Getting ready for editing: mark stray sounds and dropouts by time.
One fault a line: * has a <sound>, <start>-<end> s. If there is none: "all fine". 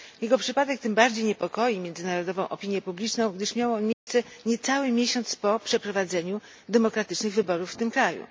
* has a dropout, 3.9-4.1 s